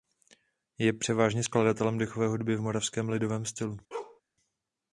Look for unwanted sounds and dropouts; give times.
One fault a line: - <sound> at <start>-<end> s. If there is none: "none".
- bark at 3.9-4.2 s